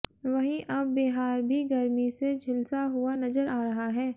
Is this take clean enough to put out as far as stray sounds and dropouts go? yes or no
yes